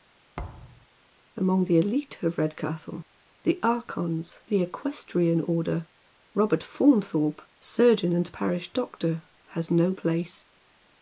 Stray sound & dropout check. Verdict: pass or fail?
fail